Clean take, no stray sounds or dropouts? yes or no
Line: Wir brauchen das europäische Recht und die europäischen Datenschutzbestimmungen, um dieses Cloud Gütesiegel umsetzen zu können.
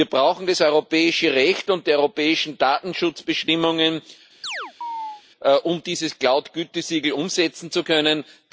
no